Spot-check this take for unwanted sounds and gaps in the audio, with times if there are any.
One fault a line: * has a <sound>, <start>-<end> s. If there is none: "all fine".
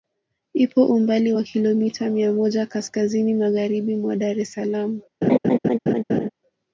* has a laugh, 5.2-6.3 s